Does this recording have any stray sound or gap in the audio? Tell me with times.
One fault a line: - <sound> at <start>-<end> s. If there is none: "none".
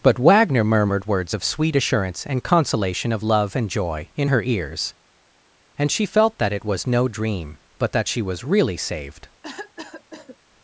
- cough at 9.4-10.4 s